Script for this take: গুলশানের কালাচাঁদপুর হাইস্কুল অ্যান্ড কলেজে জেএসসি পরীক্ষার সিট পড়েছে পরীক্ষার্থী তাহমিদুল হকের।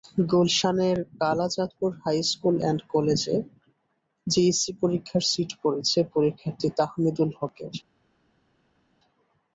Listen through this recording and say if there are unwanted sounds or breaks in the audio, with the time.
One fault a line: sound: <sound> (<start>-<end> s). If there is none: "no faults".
no faults